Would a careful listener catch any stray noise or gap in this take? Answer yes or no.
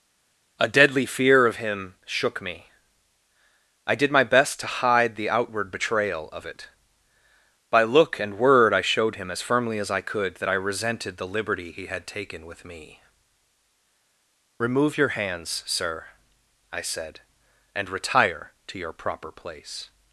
no